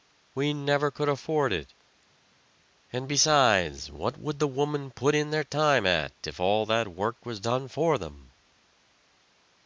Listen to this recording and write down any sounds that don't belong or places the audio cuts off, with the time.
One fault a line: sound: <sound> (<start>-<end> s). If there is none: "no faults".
no faults